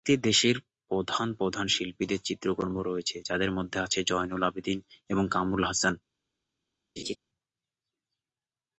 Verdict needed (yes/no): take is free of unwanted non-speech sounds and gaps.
no